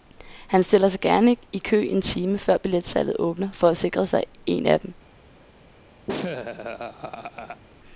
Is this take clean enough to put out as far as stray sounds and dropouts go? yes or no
no